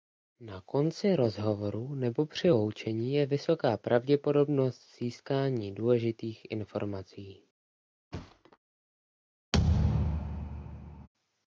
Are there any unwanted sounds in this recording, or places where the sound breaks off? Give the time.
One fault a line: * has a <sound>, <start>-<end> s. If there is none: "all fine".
* has a thud, 8.1-8.6 s
* has a thud, 9.5-11.1 s